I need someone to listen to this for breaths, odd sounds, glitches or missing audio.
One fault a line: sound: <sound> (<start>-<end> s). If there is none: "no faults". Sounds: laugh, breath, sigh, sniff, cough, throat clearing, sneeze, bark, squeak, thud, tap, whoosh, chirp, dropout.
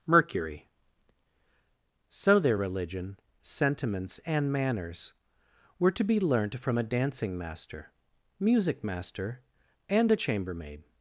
no faults